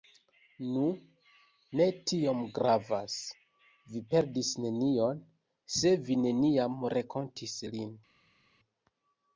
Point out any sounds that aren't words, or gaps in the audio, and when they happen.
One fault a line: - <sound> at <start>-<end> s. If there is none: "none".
none